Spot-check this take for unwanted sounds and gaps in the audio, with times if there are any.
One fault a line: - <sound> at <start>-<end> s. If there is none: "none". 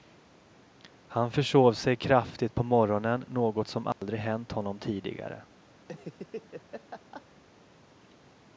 - dropout at 3.9-4.0 s
- laugh at 5.8-7.3 s